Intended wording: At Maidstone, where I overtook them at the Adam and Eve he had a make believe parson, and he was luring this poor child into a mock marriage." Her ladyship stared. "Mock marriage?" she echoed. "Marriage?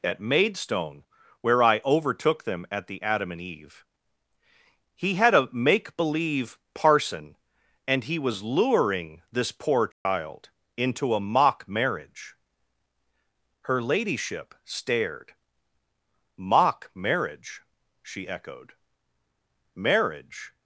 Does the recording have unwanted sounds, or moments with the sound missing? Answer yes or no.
yes